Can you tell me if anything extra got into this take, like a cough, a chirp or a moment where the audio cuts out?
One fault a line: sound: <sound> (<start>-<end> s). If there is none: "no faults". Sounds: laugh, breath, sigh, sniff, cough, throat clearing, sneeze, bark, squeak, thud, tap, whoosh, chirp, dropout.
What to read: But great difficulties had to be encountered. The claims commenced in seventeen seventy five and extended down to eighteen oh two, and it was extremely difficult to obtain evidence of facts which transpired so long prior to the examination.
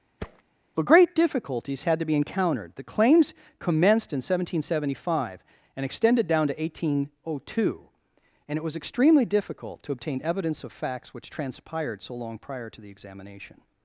sound: thud (0.2-0.4 s)